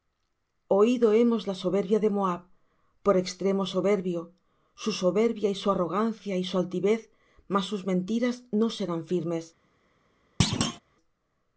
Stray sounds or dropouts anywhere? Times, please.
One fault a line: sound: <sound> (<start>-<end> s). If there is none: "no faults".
sound: thud (10.4-10.8 s)